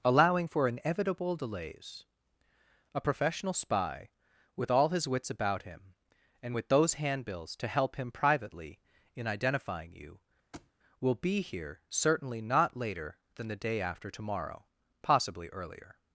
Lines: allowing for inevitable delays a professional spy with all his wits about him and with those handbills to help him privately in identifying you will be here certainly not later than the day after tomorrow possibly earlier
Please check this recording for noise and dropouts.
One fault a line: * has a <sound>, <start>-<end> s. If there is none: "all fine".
* has a thud, 10.5-10.7 s